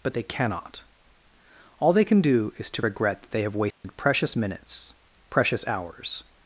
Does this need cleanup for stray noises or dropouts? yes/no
yes